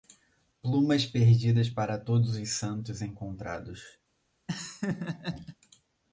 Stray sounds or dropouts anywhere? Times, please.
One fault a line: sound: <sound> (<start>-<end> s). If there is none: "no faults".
sound: laugh (4.5-5.6 s)